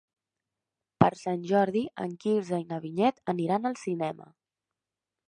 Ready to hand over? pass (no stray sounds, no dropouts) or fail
pass